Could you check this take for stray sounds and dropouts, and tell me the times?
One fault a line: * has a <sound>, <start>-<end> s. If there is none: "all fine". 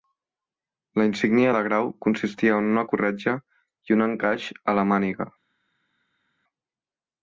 all fine